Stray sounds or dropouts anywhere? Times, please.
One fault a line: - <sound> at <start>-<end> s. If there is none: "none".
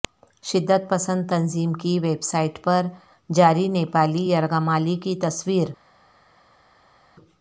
none